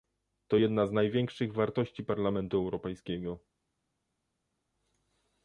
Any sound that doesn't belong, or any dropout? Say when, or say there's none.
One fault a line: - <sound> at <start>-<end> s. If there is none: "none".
none